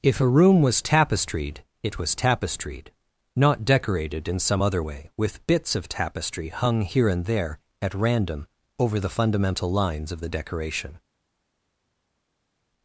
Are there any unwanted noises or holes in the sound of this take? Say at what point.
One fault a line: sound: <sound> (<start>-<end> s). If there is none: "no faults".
no faults